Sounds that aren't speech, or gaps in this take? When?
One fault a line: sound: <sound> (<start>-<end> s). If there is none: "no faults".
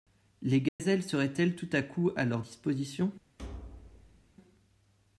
sound: dropout (0.7-0.8 s)
sound: thud (3.4-4.3 s)